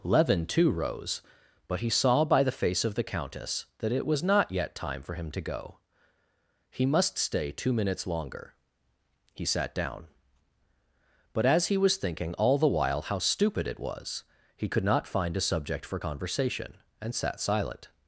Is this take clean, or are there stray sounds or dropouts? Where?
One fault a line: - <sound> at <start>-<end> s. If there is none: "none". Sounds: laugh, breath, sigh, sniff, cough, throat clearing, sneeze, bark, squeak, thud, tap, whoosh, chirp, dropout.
none